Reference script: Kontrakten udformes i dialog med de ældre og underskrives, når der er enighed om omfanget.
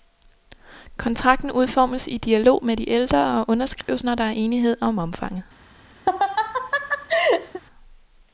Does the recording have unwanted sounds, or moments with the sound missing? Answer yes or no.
yes